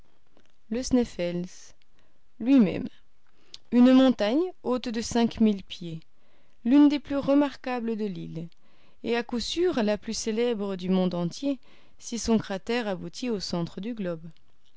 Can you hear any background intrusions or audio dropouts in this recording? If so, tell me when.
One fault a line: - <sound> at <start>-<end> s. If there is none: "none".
none